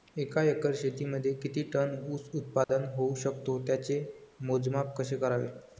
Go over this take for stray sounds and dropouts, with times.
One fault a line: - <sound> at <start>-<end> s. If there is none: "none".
- dropout at 2.6-2.7 s